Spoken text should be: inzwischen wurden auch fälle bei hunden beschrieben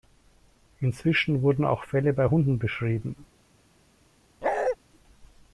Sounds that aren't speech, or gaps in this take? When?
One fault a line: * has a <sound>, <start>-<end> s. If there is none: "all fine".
* has a bark, 4.4-4.8 s